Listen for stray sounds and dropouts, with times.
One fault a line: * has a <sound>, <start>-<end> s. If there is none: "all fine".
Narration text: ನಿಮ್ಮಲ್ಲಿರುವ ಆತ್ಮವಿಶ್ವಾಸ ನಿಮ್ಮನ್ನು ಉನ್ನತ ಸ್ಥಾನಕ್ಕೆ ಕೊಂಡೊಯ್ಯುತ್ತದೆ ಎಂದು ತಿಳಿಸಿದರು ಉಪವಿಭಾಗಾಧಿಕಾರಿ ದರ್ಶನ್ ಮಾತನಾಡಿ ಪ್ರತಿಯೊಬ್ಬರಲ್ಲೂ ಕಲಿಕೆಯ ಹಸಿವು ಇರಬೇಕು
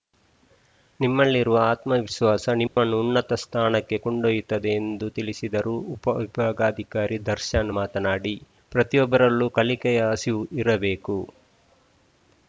* has a dropout, 2.7-2.8 s